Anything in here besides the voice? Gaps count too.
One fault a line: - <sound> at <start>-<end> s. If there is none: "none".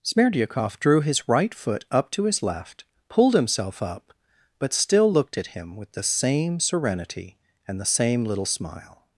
none